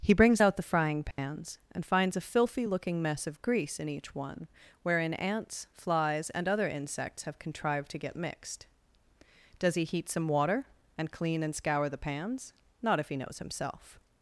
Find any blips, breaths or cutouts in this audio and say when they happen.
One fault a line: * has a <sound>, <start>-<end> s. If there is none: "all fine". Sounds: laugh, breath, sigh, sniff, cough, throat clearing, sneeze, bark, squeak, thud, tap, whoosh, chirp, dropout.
* has a dropout, 1.1-1.2 s